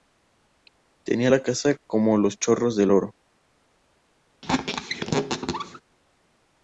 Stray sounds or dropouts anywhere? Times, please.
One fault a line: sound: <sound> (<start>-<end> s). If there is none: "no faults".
sound: squeak (4.4-5.8 s)